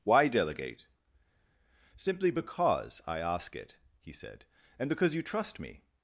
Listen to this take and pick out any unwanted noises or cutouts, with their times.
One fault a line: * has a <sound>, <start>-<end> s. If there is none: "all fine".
all fine